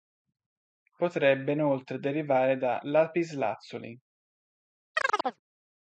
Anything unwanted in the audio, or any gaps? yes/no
yes